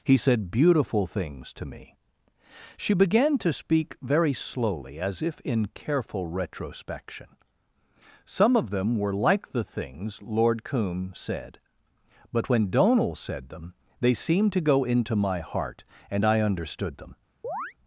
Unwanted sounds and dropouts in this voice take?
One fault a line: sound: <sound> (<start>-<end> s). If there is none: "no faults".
sound: chirp (17.4-17.7 s)